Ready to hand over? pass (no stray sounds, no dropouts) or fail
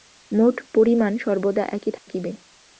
fail